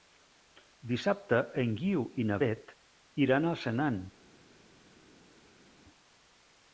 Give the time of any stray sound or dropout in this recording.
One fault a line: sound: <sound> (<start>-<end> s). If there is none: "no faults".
no faults